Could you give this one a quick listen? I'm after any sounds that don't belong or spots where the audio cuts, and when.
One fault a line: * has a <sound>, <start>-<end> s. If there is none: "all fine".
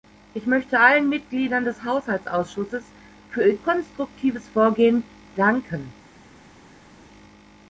all fine